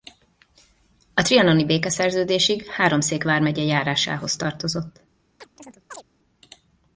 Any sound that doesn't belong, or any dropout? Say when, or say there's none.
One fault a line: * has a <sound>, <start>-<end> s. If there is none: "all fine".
* has a chirp, 5.4-6.0 s